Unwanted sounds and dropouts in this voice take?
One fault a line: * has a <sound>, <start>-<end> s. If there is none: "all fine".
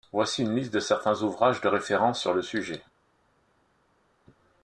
all fine